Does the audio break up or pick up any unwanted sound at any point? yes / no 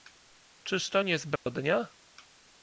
yes